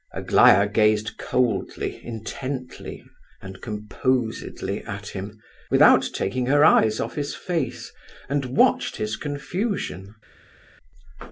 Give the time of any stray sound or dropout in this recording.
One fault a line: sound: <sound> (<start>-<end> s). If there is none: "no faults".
no faults